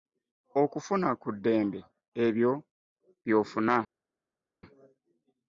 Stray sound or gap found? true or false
false